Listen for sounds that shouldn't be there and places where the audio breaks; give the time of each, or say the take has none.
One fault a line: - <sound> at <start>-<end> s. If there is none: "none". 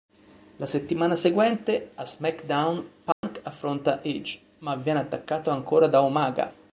- dropout at 3.1-3.2 s